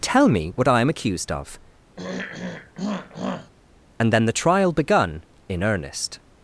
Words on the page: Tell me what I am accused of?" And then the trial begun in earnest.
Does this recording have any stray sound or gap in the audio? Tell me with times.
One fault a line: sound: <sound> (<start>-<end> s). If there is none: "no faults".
sound: throat clearing (2.0-3.5 s)